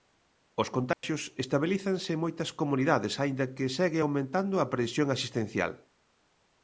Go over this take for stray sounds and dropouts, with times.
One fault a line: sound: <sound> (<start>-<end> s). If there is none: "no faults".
sound: dropout (0.9-1.0 s)